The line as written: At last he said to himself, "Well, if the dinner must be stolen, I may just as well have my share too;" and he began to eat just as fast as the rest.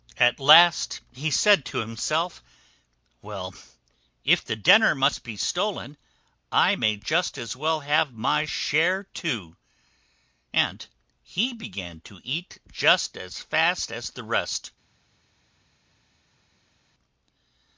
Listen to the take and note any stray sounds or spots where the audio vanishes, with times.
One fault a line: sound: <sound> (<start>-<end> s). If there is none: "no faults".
no faults